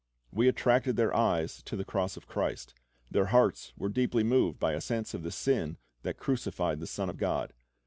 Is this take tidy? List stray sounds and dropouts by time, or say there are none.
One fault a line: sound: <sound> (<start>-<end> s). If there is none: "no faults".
no faults